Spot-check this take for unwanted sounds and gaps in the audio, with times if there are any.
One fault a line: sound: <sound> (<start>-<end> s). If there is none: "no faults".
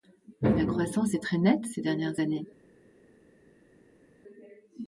no faults